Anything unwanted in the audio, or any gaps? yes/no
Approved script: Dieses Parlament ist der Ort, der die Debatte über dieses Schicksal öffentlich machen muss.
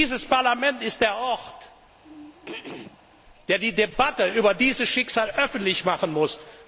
yes